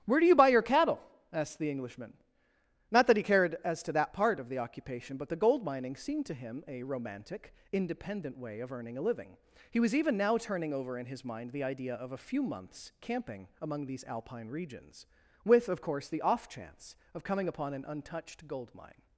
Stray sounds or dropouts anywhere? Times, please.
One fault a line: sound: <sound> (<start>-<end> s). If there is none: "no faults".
no faults